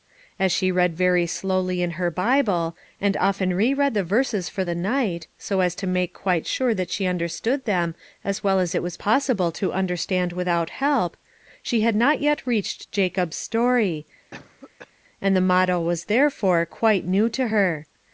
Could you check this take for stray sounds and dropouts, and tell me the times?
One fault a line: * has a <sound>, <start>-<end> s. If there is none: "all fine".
* has a cough, 14.3-14.9 s